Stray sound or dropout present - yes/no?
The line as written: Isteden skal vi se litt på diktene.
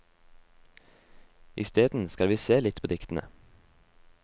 no